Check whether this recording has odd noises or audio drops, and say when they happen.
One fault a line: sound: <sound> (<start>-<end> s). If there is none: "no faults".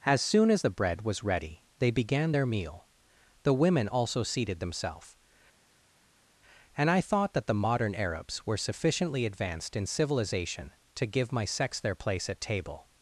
no faults